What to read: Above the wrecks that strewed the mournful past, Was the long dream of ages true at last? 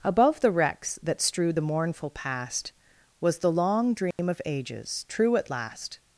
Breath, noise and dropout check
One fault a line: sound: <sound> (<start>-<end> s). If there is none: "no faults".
sound: dropout (4.1-4.2 s)